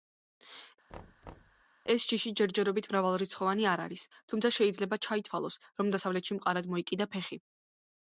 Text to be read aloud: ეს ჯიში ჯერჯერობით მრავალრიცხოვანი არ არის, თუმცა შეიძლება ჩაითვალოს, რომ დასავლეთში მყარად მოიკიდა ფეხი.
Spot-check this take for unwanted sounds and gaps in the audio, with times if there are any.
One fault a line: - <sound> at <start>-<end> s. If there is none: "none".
- thud at 0.9-1.6 s